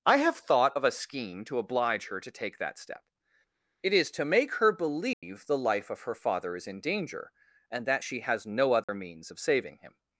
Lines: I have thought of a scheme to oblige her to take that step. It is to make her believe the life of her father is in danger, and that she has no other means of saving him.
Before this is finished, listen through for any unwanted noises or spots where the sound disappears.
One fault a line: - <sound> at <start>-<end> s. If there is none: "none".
- dropout at 5.1-5.2 s
- dropout at 8.8-8.9 s